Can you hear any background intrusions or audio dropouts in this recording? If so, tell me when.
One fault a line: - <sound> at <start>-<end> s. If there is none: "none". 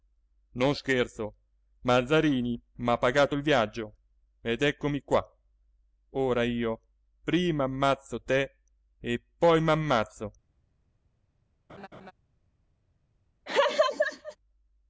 - laugh at 11.7-12.1 s
- laugh at 13.5-14.4 s